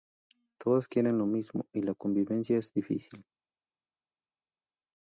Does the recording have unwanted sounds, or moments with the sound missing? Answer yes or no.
no